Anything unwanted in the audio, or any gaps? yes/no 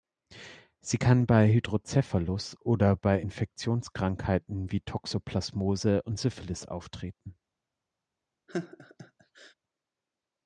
yes